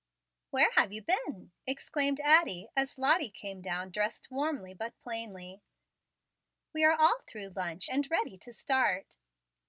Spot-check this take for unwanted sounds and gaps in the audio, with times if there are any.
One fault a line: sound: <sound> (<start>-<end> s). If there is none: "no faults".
no faults